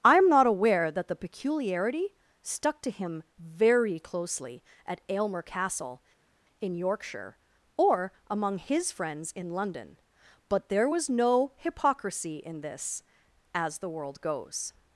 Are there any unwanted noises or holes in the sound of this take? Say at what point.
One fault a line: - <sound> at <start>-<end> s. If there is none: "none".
none